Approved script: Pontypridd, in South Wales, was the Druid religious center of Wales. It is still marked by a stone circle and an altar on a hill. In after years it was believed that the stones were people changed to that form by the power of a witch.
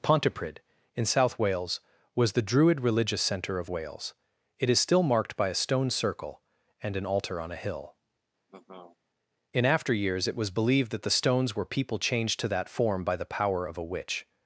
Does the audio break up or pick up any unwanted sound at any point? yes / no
yes